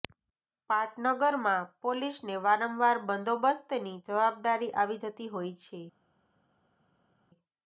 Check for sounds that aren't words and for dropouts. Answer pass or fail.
pass